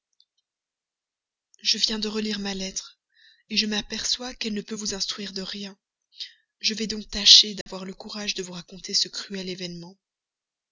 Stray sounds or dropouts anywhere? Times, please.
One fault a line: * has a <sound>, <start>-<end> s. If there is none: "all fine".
* has a dropout, 7.6-7.7 s